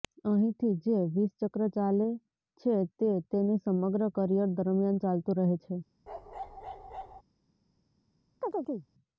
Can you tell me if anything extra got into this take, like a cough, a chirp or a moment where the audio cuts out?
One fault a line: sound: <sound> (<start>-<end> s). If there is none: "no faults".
sound: bark (6.1-7.2 s)
sound: chirp (8.4-8.9 s)